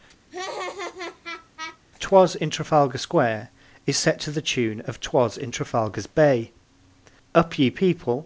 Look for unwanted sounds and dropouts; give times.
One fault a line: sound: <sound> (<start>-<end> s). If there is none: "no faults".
sound: laugh (0.3-1.8 s)